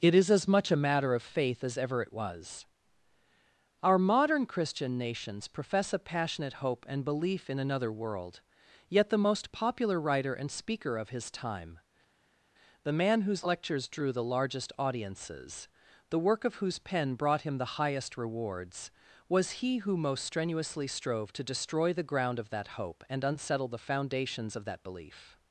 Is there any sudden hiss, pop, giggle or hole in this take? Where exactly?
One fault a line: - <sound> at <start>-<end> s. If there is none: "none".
none